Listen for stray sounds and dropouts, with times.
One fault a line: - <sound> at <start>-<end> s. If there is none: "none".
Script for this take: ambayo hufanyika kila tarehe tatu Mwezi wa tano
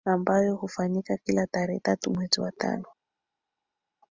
none